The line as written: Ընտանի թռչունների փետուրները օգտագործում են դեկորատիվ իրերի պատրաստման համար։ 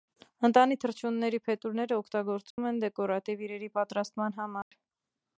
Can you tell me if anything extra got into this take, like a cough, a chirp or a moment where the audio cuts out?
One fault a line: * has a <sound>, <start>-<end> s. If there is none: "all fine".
* has a dropout, 2.5-2.6 s
* has a dropout, 4.6-4.7 s